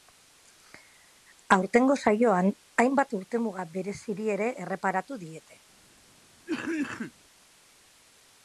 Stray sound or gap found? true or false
true